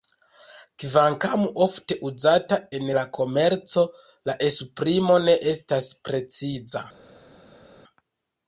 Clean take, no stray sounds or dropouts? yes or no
yes